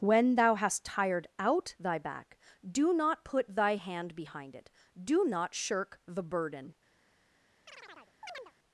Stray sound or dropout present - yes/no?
yes